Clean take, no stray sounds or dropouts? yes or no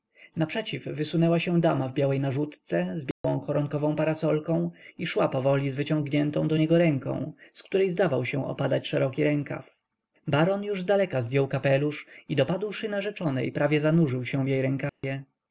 no